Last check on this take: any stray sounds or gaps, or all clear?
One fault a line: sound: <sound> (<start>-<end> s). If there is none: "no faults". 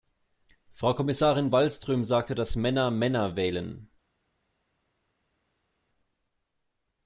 no faults